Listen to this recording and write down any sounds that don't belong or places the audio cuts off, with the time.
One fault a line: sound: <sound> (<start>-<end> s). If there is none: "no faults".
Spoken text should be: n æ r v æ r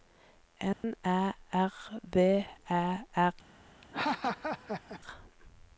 sound: dropout (0.7-0.8 s)
sound: laugh (3.8-5.0 s)